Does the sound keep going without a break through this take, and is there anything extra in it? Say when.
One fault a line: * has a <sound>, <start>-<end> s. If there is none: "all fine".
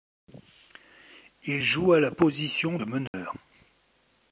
* has a dropout, 3.1-3.1 s